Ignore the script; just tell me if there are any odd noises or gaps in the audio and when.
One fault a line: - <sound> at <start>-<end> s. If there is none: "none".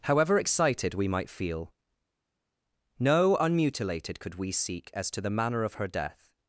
none